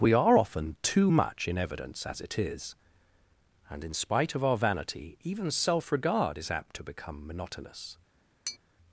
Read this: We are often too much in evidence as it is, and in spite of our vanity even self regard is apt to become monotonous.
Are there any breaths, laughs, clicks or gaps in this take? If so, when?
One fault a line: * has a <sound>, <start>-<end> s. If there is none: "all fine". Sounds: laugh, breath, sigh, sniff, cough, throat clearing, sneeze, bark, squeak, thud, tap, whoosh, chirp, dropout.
* has a tap, 8.5-8.6 s